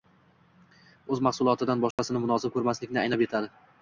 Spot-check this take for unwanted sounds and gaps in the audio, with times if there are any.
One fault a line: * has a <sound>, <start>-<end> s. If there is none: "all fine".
* has a dropout, 1.9-2.0 s